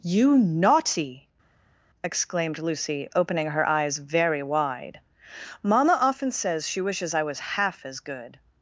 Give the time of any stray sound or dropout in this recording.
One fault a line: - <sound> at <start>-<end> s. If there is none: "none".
none